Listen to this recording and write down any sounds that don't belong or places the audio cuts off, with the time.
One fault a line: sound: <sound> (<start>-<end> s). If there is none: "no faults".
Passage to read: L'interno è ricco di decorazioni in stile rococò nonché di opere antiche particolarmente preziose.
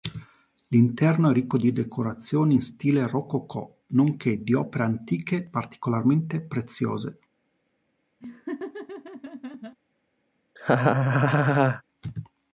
sound: laugh (8.2-9.8 s)
sound: laugh (10.6-11.8 s)